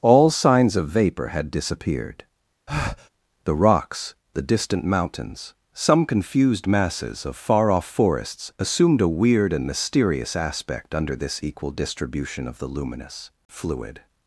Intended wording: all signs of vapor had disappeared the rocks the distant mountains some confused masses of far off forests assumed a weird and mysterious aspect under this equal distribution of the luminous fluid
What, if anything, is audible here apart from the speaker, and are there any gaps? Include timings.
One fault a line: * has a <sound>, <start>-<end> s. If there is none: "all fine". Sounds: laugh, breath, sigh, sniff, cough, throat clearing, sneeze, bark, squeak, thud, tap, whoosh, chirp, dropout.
* has a breath, 2.7-3.1 s